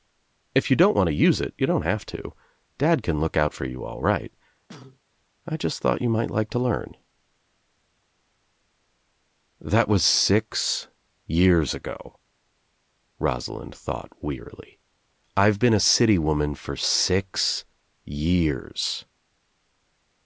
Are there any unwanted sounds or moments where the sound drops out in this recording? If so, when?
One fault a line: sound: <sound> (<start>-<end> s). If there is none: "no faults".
sound: cough (4.7-5.0 s)